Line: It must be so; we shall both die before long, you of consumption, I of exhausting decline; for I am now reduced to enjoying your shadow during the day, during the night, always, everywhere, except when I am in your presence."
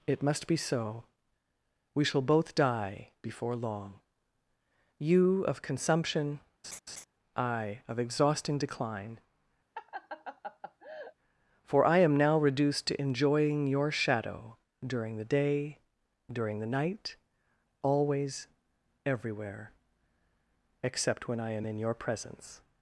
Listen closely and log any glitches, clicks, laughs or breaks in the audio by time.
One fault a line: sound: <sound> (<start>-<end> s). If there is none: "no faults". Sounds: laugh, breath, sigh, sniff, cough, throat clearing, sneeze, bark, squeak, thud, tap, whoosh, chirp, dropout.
sound: laugh (6.6-7.0 s)
sound: laugh (9.7-11.1 s)